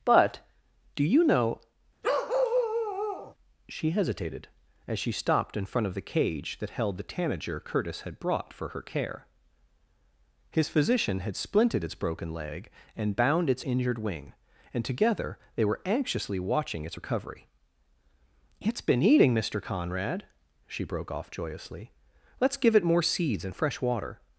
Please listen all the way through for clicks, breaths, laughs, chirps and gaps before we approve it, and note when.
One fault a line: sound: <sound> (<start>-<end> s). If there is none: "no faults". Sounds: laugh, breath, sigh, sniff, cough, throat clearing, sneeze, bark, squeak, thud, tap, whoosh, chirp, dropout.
sound: bark (2.0-3.3 s)